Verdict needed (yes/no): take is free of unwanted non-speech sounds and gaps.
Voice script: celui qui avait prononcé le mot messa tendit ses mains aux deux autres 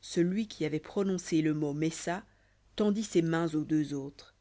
yes